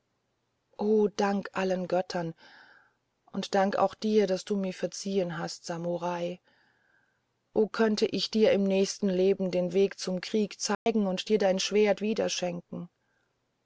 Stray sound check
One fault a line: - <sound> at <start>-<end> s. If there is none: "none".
- dropout at 10.7-10.9 s